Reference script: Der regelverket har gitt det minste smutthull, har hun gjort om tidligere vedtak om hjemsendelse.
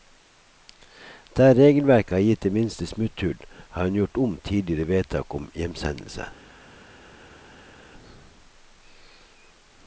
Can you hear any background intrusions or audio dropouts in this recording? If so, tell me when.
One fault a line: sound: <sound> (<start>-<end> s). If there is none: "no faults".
no faults